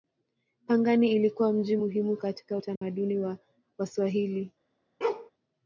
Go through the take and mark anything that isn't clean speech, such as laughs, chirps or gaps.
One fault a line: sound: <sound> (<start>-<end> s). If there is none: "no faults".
sound: dropout (2.8-2.8 s)
sound: bark (5.0-5.3 s)